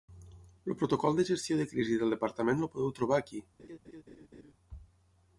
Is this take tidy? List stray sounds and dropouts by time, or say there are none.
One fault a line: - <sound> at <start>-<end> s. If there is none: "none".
- laugh at 3.6-4.5 s